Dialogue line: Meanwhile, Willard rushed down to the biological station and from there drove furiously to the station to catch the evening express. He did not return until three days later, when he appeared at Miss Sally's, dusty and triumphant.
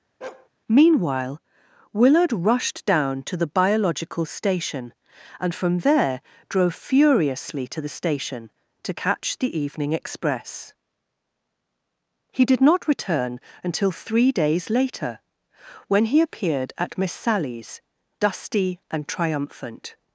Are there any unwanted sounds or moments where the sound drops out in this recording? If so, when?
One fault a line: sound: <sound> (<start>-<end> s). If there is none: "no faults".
sound: bark (0.2-0.5 s)